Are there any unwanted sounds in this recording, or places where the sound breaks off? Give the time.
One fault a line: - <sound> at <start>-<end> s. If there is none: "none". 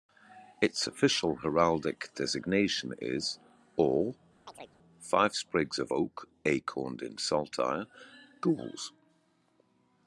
- chirp at 4.5-4.8 s